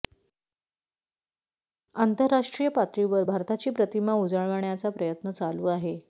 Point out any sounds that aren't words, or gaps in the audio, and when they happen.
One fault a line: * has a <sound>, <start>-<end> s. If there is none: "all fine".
all fine